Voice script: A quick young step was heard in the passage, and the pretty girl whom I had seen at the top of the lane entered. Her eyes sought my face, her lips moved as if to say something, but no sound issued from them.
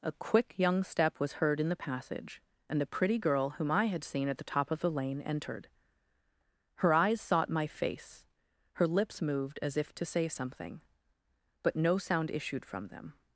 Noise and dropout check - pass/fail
pass